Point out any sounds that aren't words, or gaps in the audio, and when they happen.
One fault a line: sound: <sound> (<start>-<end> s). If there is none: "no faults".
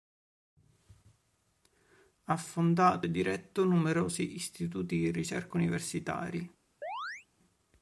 sound: chirp (6.8-7.3 s)